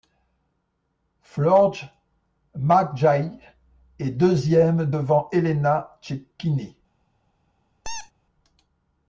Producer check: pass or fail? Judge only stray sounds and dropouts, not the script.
fail